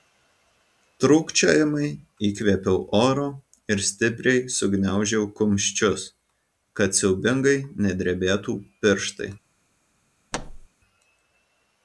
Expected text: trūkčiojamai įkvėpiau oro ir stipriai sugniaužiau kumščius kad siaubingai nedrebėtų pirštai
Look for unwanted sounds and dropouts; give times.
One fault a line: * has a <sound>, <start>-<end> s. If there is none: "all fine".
* has a thud, 10.3-10.7 s